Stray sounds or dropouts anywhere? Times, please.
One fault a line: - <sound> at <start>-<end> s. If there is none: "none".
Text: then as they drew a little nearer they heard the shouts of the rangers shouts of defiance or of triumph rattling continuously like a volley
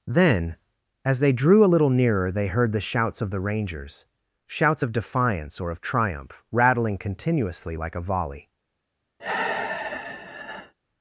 - sigh at 9.2-10.7 s